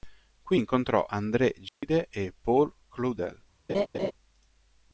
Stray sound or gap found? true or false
true